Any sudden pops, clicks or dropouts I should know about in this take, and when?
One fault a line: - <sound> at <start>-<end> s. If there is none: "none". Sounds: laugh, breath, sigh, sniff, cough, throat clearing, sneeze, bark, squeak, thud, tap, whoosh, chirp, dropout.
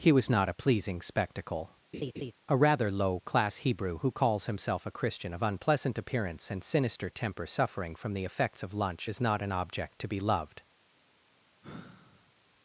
- laugh at 1.9-2.3 s
- sigh at 11.6-12.3 s